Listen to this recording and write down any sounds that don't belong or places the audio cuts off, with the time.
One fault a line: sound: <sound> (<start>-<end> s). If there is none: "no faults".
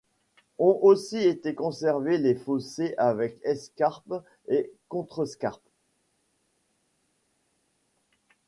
no faults